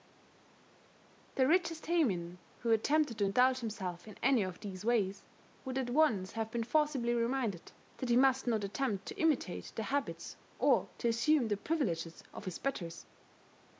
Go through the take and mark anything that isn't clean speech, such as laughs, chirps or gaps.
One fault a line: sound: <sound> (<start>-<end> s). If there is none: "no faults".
no faults